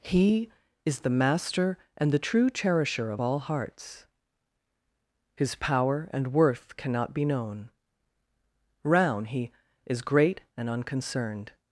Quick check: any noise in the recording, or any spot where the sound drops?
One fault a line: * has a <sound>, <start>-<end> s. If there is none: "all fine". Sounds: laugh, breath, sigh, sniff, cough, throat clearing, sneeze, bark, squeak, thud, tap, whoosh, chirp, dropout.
all fine